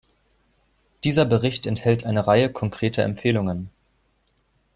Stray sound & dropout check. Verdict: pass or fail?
pass